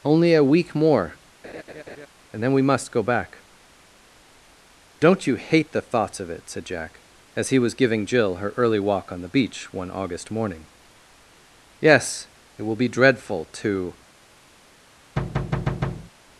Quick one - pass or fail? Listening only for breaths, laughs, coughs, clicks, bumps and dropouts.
fail